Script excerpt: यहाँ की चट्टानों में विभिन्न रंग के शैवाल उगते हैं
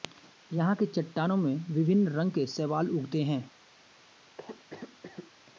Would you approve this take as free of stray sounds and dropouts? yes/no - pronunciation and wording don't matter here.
no